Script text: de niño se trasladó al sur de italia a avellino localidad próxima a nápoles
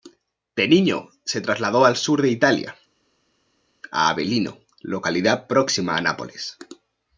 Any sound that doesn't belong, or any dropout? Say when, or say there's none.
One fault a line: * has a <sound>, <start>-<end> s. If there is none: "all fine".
all fine